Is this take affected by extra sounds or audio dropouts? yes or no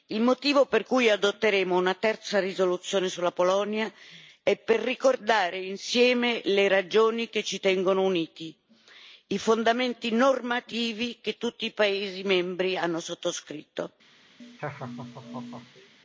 yes